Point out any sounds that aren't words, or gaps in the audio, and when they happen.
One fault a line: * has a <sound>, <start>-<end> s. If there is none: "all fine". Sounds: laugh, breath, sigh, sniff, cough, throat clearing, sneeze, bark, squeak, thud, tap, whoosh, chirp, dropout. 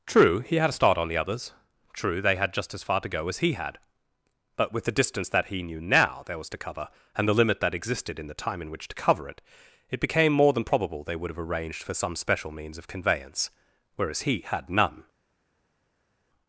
all fine